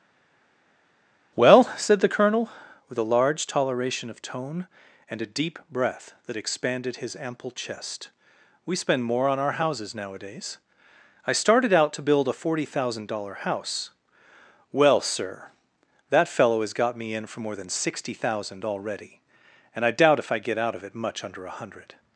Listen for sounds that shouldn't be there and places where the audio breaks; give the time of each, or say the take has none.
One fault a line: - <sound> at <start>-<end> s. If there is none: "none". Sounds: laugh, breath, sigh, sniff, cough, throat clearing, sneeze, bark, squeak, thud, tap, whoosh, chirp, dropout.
none